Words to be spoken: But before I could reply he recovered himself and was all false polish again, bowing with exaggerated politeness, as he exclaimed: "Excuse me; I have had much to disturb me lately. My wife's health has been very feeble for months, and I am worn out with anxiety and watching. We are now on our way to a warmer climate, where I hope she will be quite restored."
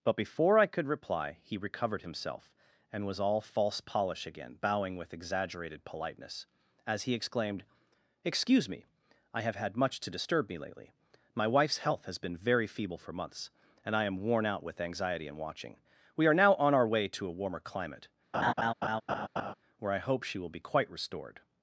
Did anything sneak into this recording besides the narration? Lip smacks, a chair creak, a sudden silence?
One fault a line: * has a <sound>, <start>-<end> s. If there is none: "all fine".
* has a laugh, 18.3-19.5 s